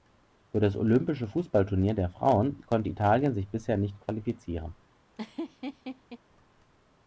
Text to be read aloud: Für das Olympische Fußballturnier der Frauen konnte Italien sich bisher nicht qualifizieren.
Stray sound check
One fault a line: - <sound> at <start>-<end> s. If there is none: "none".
- laugh at 5.2-6.2 s